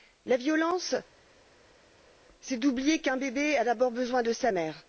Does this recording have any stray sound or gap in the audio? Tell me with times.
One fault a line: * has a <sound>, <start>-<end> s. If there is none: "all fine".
all fine